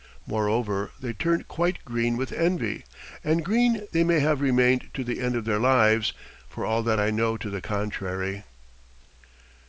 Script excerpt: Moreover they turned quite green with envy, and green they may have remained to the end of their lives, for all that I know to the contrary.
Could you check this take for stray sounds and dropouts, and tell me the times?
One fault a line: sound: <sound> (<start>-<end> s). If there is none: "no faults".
no faults